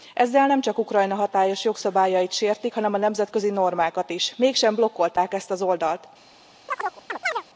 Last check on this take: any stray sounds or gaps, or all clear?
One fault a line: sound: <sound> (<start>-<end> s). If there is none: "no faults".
sound: chirp (6.7-7.4 s)